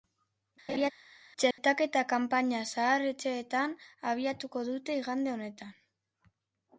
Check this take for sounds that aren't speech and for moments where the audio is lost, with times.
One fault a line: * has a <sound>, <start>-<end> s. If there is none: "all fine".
* has a laugh, 0.7-0.9 s
* has a dropout, 1.5-1.6 s